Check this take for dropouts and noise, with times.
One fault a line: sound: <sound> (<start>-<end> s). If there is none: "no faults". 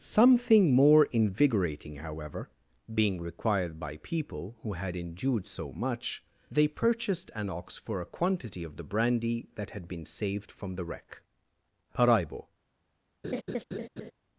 sound: laugh (13.2-14.1 s)